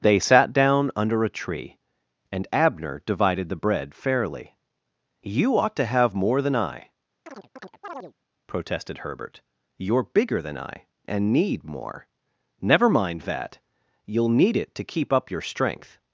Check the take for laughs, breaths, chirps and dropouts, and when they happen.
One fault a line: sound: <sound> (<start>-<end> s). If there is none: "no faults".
sound: chirp (7.3-8.1 s)